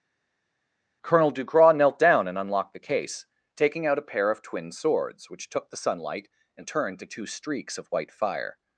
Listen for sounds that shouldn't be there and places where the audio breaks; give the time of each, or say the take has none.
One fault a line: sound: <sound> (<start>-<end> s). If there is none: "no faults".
no faults